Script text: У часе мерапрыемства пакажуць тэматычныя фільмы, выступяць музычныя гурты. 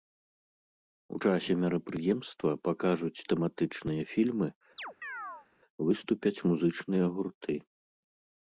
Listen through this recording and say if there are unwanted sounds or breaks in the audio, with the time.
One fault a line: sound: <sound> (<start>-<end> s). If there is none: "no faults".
sound: chirp (4.8-5.5 s)